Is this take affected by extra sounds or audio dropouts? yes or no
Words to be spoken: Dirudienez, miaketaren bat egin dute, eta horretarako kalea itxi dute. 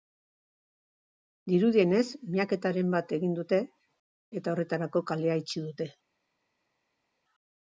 no